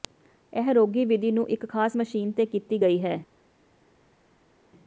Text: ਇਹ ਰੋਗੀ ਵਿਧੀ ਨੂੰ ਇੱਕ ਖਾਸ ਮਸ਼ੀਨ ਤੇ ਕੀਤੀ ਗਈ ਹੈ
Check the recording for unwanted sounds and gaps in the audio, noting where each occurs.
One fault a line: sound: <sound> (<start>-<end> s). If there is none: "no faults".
no faults